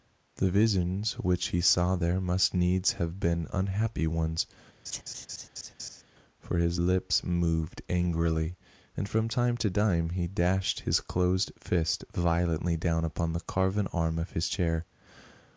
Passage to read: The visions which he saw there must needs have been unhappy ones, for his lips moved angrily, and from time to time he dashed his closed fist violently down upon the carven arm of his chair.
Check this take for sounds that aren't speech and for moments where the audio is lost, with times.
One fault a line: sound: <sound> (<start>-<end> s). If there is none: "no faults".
sound: laugh (4.9-6.0 s)